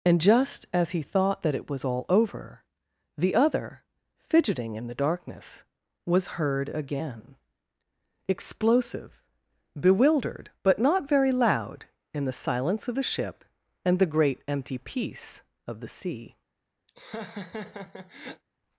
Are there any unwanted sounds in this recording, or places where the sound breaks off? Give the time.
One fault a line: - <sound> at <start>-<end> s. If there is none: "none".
- laugh at 16.9-18.4 s